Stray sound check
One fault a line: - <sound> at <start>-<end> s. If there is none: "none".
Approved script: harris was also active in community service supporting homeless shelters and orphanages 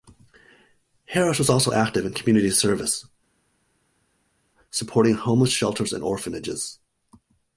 none